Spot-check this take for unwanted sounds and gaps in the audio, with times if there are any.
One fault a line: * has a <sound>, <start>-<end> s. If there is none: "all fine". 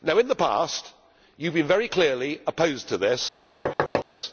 * has a thud, 3.7-4.1 s